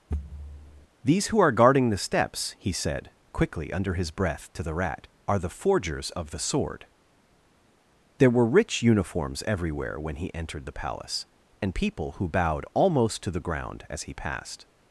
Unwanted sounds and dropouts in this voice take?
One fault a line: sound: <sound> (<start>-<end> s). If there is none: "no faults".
sound: thud (0.1-0.9 s)